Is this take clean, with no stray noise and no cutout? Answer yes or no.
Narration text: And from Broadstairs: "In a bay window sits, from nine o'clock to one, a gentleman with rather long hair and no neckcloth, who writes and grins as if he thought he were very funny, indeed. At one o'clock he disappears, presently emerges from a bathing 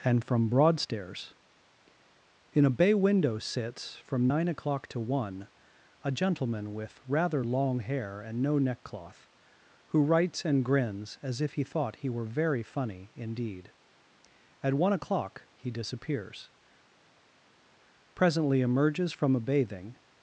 yes